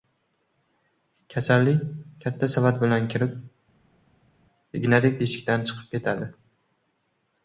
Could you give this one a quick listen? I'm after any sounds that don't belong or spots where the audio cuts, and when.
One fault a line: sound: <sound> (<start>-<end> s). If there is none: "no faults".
no faults